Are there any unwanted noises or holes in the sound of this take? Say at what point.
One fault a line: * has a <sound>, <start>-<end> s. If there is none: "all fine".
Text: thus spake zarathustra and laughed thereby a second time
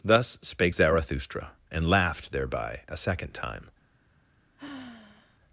* has a sigh, 4.6-5.4 s